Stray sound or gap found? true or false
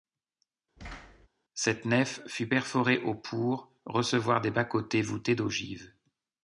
true